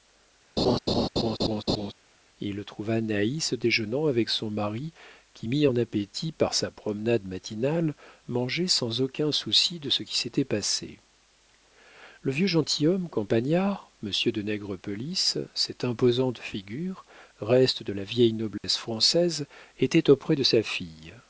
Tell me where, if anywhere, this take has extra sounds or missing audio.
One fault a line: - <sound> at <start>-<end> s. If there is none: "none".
- laugh at 0.6-1.9 s
- dropout at 18.6-18.6 s